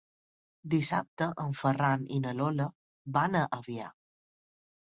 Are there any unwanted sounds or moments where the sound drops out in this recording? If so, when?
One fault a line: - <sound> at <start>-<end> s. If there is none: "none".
none